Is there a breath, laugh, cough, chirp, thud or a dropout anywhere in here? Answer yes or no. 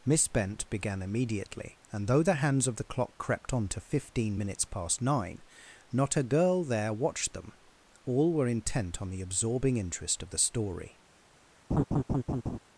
yes